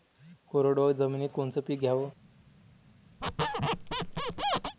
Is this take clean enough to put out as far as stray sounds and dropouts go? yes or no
no